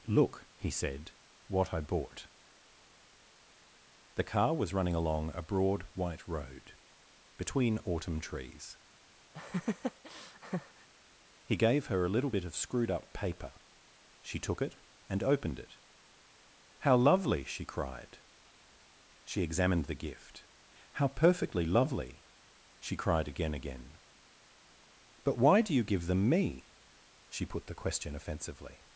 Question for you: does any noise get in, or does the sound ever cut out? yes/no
yes